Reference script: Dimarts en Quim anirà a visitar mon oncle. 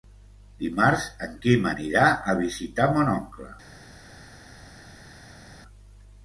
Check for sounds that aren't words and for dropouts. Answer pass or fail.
pass